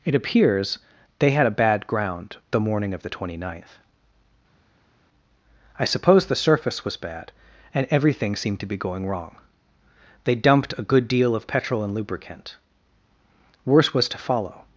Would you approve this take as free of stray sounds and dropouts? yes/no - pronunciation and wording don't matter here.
yes